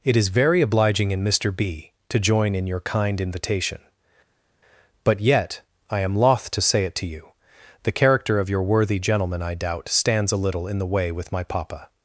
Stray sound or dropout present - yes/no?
no